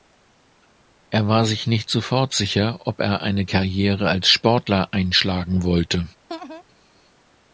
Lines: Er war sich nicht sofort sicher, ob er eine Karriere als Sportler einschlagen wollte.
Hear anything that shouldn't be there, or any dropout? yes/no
yes